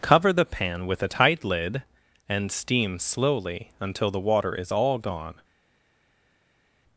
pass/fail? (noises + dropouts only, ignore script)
pass